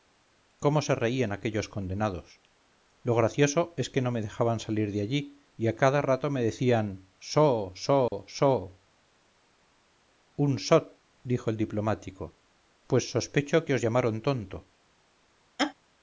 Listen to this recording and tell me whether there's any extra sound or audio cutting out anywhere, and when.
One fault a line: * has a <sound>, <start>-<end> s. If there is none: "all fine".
* has a dropout, 8.1-8.1 s
* has a laugh, 15.6-15.7 s